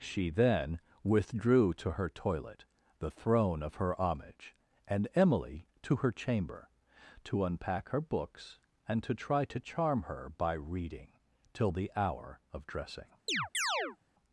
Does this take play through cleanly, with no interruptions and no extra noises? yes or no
no